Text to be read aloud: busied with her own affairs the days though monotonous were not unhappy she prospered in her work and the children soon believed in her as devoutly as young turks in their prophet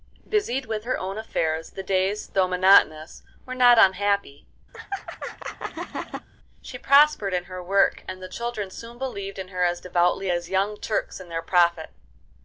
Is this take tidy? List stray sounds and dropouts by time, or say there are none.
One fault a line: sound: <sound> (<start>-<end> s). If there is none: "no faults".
sound: laugh (4.7-6.3 s)